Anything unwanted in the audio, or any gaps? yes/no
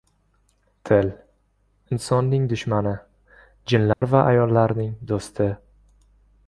yes